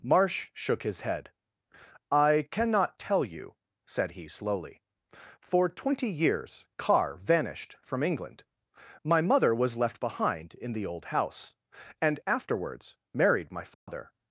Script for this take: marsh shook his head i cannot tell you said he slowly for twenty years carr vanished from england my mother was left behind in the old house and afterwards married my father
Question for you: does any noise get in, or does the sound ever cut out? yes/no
yes